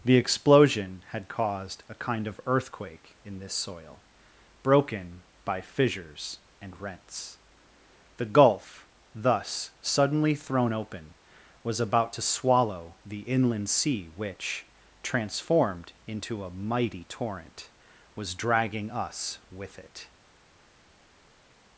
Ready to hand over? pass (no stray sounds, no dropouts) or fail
pass